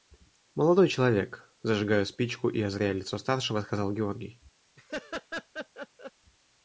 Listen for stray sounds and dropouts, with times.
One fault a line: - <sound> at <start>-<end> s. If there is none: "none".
- laugh at 4.8-6.1 s